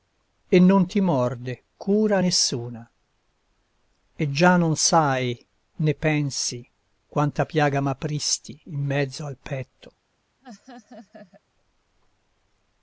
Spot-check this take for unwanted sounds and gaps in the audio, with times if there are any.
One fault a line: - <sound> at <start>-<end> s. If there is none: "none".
- laugh at 10.4-11.4 s